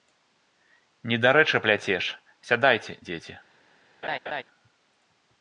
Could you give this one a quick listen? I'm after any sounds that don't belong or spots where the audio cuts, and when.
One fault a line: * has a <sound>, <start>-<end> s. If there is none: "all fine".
* has a laugh, 4.0-4.4 s